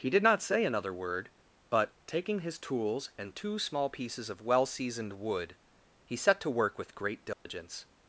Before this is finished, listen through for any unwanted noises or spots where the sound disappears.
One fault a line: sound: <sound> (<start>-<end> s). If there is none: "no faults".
sound: dropout (7.3-7.5 s)